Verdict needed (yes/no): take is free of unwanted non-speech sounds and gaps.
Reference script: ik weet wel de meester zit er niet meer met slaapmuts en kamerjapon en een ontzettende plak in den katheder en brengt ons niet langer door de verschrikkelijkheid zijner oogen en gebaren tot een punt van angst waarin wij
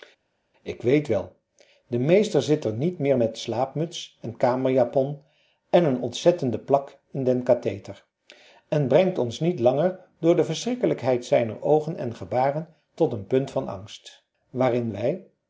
yes